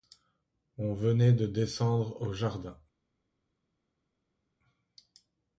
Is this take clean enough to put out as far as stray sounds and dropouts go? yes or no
yes